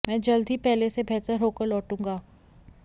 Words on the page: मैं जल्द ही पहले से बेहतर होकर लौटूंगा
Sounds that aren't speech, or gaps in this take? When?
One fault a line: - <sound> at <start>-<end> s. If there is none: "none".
none